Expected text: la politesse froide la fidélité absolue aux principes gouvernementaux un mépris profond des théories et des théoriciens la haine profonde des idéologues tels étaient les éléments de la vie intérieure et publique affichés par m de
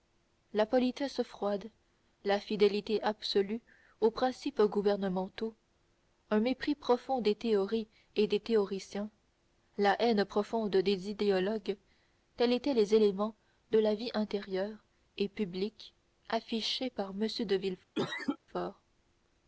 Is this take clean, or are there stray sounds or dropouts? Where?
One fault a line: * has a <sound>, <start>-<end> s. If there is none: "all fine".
* has a cough, 18.0-18.4 s